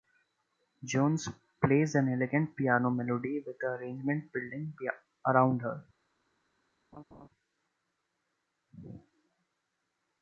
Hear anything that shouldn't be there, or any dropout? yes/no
yes